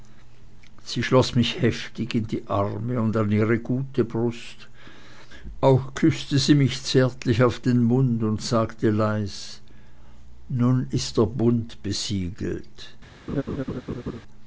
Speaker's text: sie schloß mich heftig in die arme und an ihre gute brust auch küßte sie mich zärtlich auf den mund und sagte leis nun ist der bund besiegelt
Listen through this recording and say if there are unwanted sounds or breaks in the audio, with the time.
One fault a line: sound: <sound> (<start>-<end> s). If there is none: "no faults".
sound: laugh (13.3-14.2 s)